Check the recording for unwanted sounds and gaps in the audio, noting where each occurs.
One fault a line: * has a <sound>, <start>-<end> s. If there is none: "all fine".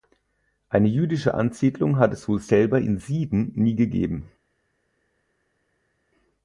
all fine